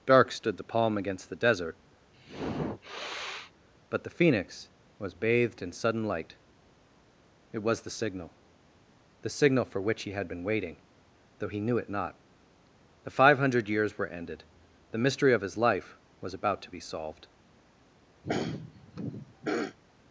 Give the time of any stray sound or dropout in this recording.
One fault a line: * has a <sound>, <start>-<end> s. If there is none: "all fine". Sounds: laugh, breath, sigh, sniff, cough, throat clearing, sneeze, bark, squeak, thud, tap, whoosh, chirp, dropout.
* has a sniff, 2.1-3.5 s
* has a throat clearing, 18.2-19.8 s